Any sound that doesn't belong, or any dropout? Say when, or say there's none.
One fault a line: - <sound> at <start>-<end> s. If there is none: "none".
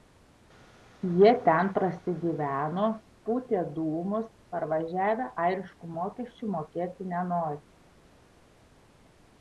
none